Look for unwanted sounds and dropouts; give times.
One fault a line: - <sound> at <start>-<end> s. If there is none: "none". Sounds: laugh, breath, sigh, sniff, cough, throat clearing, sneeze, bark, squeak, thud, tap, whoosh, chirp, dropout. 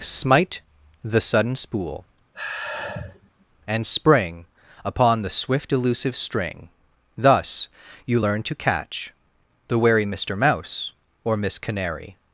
- sigh at 2.3-3.5 s